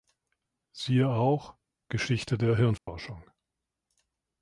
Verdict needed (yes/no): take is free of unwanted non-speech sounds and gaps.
no